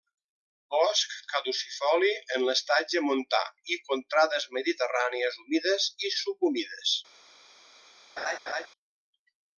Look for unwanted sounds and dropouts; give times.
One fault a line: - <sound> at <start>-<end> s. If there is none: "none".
- laugh at 8.2-8.7 s